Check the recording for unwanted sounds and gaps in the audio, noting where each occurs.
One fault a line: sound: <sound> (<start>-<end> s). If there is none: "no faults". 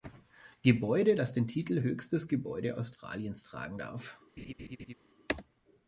sound: laugh (4.4-4.9 s)